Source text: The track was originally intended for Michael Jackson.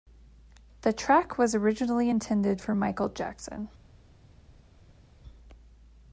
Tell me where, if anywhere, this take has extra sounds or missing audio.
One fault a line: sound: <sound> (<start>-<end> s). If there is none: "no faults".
no faults